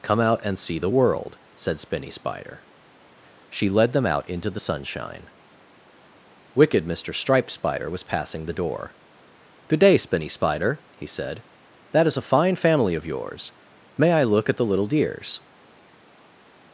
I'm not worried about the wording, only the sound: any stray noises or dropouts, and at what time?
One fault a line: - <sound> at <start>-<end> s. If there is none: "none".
none